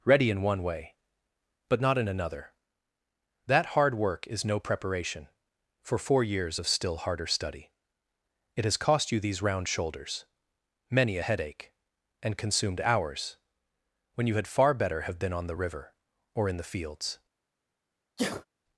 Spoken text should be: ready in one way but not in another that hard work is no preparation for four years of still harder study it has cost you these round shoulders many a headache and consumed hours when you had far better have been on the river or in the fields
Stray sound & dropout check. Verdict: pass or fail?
fail